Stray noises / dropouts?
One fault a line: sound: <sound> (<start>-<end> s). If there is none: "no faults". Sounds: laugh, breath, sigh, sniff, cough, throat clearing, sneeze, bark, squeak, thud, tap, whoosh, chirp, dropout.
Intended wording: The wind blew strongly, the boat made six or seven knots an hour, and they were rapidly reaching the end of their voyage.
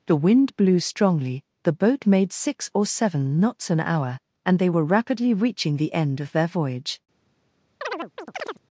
sound: chirp (7.8-8.6 s)